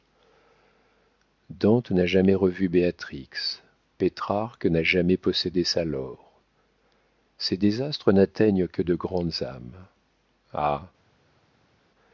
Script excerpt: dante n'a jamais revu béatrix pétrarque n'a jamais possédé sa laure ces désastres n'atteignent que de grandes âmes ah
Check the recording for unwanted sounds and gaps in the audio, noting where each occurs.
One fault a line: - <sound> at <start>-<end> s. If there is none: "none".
none